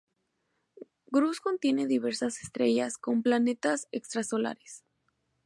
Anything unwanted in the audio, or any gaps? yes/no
no